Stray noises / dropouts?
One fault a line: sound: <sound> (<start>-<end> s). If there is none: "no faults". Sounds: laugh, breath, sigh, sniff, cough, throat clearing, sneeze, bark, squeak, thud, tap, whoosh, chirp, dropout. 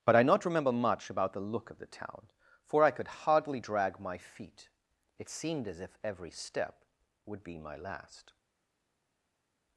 no faults